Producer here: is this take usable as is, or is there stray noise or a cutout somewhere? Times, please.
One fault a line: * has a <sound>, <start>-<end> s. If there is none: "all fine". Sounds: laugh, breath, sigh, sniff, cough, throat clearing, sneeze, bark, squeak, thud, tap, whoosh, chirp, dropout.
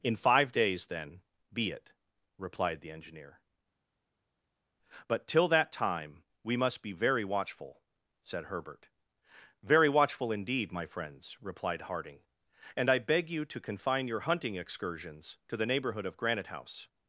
all fine